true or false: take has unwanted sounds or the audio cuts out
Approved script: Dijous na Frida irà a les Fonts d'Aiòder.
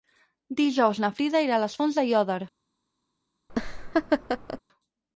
true